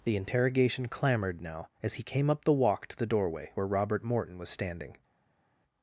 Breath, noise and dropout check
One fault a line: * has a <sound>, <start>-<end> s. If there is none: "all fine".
all fine